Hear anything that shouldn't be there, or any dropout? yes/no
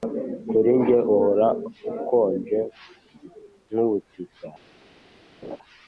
yes